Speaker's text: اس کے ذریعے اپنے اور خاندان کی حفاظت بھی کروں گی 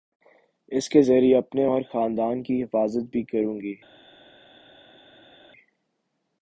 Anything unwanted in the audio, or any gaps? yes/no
no